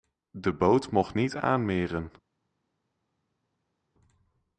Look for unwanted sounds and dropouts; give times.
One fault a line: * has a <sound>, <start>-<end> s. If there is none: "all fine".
all fine